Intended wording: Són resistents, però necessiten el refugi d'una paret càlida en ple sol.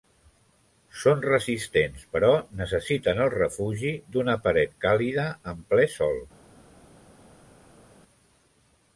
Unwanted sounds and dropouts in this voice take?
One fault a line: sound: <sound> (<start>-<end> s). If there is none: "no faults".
no faults